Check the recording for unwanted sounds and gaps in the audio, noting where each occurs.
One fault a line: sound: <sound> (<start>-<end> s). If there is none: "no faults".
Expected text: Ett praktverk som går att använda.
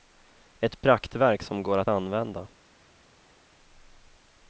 no faults